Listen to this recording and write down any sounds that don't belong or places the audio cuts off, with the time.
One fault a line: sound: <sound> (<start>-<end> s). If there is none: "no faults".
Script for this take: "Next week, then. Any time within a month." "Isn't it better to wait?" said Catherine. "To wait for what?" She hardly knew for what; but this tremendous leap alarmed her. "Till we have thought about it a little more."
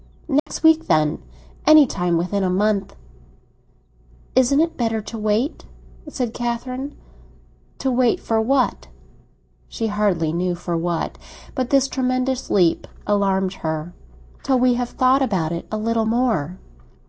sound: dropout (0.4-0.5 s)